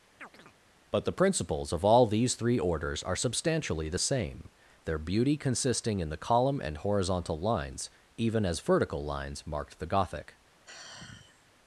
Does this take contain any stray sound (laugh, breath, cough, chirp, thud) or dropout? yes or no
yes